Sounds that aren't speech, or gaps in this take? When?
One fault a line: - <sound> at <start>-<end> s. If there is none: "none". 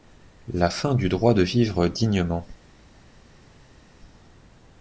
none